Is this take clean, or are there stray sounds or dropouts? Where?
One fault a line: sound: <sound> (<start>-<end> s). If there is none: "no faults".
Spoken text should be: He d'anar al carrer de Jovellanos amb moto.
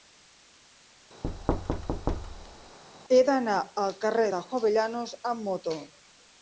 sound: thud (1.2-2.8 s)